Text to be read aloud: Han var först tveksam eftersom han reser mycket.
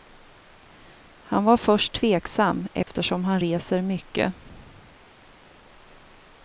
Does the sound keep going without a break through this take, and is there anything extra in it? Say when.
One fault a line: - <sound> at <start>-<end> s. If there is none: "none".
- dropout at 2.8-2.9 s